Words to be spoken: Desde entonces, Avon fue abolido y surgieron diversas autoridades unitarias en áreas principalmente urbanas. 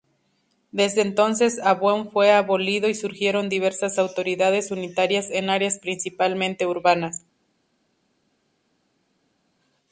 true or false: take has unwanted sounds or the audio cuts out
false